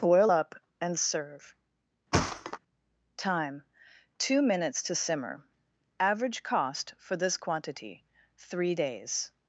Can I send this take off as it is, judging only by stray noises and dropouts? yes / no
no